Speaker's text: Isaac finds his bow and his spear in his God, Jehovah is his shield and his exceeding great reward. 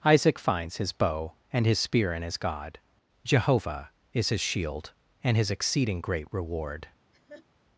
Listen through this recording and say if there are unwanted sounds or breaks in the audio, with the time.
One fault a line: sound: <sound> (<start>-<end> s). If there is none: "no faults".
sound: laugh (7.1-7.5 s)